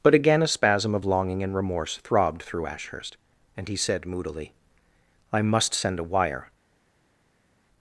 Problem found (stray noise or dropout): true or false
false